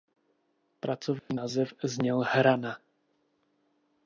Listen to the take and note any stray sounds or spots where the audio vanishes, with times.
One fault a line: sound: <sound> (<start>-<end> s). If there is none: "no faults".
sound: dropout (1.2-1.3 s)